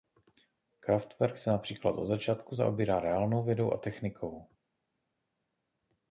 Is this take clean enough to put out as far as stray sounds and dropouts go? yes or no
yes